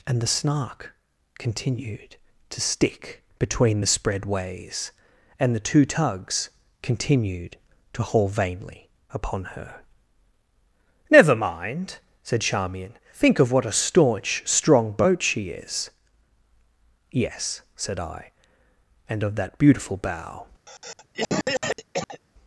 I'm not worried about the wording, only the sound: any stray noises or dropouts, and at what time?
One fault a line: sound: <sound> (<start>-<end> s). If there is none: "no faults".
sound: cough (20.7-22.2 s)